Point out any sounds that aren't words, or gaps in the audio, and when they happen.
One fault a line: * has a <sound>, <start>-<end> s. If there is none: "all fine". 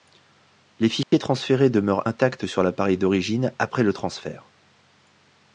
* has a dropout, 1.0-1.1 s